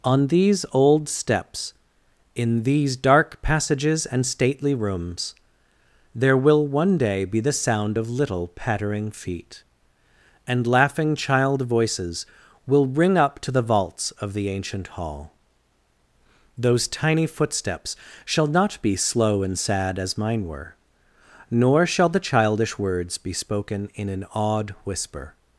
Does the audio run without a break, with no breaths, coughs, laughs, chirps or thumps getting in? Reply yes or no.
yes